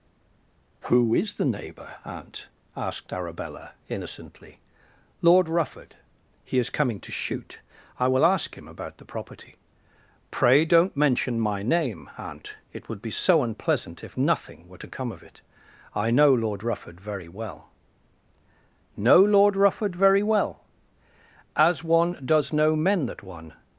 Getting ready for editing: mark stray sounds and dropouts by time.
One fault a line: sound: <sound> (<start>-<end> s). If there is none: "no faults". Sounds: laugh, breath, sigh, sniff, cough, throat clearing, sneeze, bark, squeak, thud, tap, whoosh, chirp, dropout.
no faults